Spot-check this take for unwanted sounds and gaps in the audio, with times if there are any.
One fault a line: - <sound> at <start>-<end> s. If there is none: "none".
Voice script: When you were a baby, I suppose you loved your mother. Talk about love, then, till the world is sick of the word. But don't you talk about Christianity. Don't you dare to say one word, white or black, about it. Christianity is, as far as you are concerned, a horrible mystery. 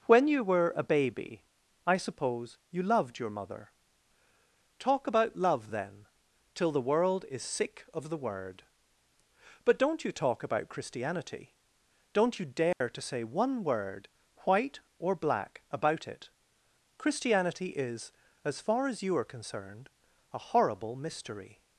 - dropout at 12.7-12.8 s